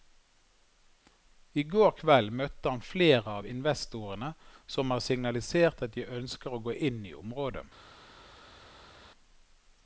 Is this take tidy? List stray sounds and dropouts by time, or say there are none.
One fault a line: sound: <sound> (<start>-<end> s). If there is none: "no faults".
no faults